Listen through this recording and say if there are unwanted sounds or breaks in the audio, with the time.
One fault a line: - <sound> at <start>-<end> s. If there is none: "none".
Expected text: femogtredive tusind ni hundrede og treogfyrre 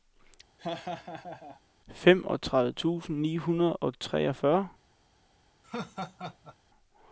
- laugh at 0.6-1.6 s
- laugh at 5.6-6.6 s